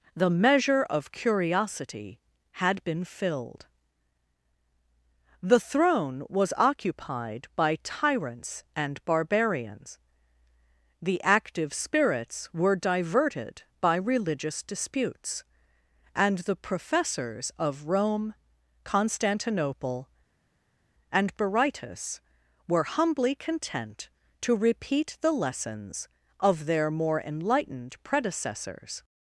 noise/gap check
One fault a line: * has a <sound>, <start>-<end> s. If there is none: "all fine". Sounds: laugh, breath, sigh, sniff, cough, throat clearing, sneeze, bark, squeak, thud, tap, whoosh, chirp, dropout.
all fine